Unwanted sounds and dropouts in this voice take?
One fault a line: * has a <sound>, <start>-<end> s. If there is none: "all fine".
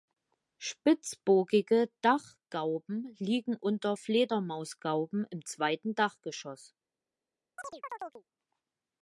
* has a chirp, 7.6-8.2 s